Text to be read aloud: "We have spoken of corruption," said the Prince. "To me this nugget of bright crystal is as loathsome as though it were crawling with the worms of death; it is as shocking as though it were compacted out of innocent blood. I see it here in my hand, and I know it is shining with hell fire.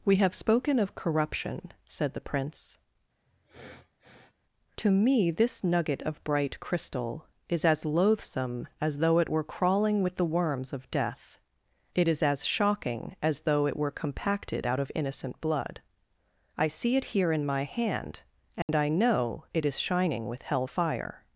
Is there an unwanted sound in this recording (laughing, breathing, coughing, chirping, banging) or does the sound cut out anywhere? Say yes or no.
yes